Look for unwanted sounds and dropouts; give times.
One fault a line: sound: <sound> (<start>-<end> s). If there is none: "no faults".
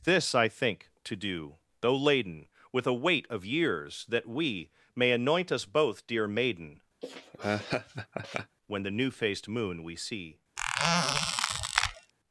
sound: laugh (7.0-8.6 s)
sound: squeak (10.6-12.1 s)